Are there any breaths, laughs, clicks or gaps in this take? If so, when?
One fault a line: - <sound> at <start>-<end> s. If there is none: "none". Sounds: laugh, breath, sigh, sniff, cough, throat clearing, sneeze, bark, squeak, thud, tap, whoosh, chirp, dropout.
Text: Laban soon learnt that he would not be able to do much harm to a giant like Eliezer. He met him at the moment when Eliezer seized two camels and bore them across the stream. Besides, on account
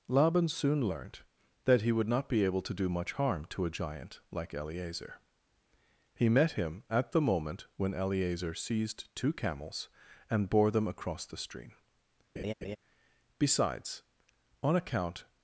- laugh at 12.4-12.8 s